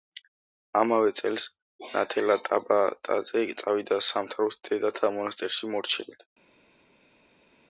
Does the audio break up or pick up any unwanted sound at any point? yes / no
no